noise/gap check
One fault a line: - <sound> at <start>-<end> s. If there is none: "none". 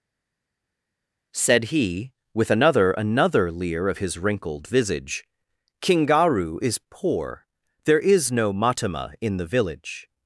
none